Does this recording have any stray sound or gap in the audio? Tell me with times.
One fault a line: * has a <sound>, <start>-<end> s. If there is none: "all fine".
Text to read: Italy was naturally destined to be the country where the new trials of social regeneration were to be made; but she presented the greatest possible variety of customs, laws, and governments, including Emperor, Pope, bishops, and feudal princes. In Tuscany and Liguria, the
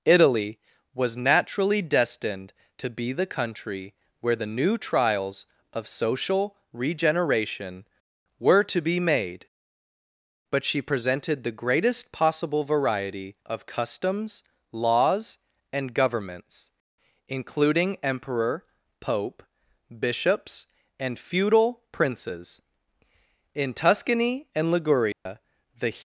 * has a dropout, 25.1-25.3 s